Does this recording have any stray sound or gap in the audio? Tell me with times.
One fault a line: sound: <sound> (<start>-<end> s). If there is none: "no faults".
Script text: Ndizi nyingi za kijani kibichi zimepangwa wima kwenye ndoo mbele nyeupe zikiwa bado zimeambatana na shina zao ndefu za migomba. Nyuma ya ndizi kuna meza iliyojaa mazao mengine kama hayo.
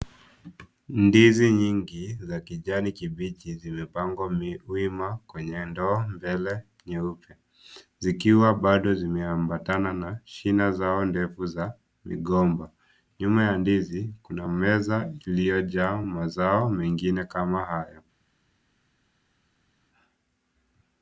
no faults